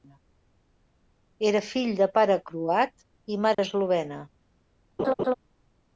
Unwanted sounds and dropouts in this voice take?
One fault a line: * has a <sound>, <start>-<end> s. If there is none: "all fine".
* has a dropout, 3.5-3.6 s
* has a laugh, 5.0-5.3 s